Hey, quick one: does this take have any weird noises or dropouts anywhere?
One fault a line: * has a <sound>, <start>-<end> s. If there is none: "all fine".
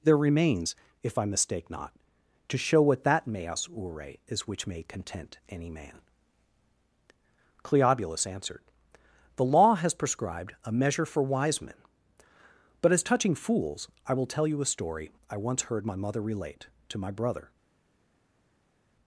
all fine